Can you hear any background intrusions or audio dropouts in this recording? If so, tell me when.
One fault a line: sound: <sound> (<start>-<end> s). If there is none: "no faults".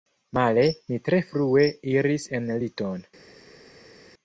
no faults